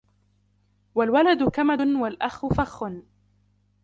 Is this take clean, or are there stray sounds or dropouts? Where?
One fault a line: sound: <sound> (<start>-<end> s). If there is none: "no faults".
no faults